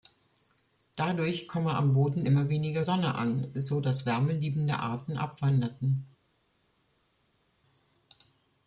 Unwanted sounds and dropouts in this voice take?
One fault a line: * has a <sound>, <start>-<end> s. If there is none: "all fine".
all fine